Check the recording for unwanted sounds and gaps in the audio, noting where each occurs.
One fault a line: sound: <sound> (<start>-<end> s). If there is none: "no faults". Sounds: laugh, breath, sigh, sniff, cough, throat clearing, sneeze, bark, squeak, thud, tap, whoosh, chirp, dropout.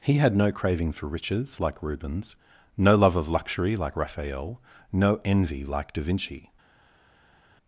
no faults